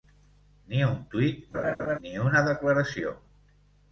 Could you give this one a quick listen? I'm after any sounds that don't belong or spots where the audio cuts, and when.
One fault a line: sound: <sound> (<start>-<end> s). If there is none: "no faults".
sound: laugh (1.5-2.0 s)